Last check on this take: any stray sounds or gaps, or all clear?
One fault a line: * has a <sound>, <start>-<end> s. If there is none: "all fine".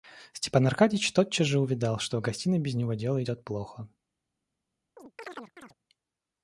* has a chirp, 5.0-5.7 s